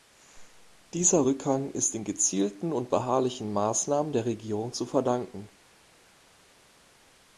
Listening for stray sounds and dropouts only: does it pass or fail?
pass